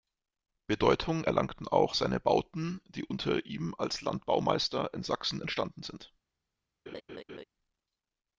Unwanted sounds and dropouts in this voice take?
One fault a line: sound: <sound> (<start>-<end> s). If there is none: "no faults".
sound: laugh (6.9-7.4 s)